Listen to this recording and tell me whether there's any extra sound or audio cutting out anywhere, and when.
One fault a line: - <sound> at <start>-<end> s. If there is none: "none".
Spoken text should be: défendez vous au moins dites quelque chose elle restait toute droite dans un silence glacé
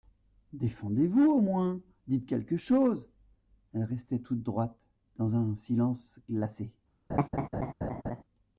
- laugh at 7.1-8.2 s